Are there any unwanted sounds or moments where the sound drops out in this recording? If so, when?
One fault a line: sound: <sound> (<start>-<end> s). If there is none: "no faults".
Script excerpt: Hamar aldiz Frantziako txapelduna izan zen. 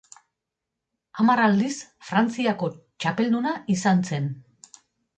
no faults